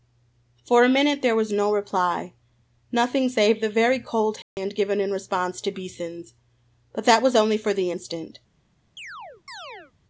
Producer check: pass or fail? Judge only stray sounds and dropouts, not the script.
fail